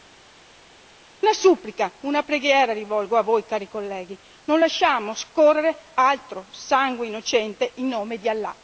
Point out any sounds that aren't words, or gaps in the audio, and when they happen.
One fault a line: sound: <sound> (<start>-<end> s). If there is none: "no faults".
no faults